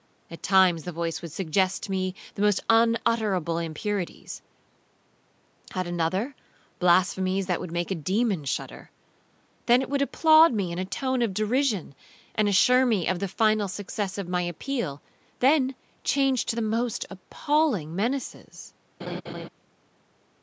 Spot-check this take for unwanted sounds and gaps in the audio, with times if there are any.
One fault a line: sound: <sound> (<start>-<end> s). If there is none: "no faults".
sound: laugh (19.0-19.5 s)